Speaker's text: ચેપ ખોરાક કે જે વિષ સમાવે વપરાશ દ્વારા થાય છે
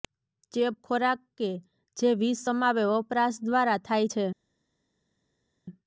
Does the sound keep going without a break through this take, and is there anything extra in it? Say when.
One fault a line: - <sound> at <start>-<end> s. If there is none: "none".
none